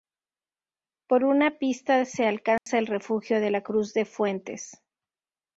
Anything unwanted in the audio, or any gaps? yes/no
yes